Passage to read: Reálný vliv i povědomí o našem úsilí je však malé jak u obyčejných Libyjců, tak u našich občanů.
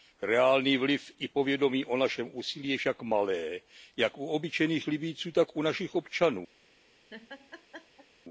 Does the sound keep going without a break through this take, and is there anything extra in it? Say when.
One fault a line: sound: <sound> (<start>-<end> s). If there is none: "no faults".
sound: laugh (7.1-8.1 s)